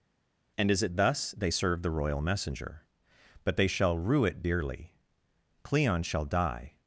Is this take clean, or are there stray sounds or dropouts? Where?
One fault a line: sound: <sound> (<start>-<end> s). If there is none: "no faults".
no faults